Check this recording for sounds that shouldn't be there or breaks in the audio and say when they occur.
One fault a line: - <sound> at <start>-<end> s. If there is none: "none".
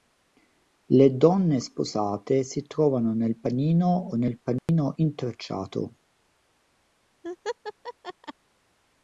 - dropout at 4.6-4.7 s
- laugh at 7.2-8.3 s